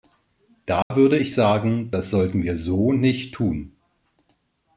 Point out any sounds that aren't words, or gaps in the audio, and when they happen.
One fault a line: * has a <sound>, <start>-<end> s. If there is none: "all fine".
* has a dropout, 0.8-0.9 s